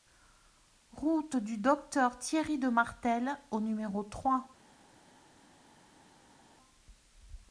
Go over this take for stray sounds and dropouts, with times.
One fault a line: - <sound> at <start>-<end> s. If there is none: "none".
none